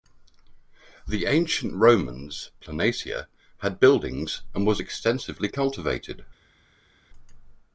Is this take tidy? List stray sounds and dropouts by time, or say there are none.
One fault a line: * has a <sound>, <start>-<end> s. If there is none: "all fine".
all fine